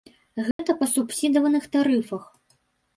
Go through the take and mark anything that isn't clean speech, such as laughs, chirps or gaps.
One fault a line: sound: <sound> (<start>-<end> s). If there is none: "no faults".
sound: dropout (0.5-0.6 s)